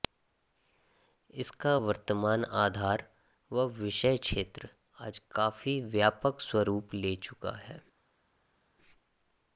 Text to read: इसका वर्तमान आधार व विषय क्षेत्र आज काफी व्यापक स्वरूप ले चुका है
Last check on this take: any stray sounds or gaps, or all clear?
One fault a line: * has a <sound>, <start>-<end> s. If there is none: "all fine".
all fine